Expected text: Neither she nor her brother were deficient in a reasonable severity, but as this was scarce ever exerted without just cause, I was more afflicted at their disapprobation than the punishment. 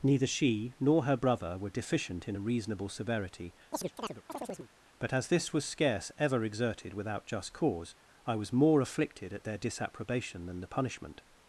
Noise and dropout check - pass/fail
fail